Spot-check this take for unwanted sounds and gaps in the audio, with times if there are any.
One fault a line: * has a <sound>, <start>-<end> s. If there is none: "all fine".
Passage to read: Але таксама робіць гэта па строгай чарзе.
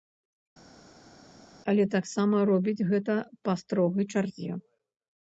all fine